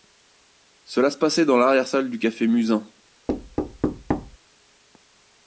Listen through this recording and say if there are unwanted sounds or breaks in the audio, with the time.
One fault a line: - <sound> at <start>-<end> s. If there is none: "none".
- thud at 3.3-4.4 s